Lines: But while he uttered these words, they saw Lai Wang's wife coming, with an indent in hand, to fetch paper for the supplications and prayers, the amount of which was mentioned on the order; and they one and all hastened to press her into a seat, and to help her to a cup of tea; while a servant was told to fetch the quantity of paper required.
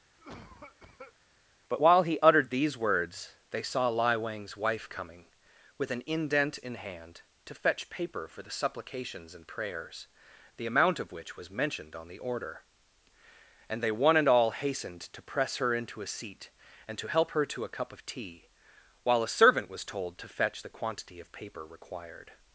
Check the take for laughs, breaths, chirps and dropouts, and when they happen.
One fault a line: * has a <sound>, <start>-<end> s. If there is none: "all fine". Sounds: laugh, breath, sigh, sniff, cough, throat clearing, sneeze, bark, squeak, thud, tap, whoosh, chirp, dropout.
* has a cough, 0.2-1.2 s